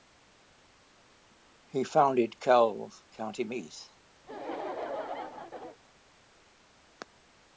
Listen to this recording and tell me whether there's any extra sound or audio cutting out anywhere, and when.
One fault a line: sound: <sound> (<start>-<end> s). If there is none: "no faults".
sound: laugh (4.2-5.8 s)